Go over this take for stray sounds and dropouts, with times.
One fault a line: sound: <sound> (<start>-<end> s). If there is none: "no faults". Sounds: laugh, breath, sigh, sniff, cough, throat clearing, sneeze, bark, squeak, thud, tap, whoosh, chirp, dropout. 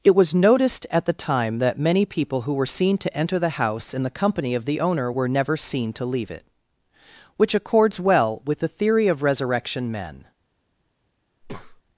sound: breath (11.4-11.8 s)